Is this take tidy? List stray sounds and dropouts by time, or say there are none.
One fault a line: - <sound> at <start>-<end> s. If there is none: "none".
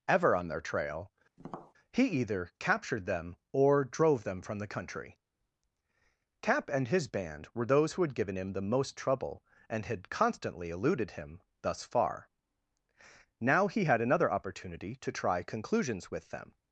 - tap at 1.4-1.7 s